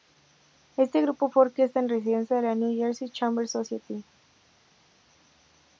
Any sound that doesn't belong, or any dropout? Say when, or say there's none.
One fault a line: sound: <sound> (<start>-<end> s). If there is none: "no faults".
no faults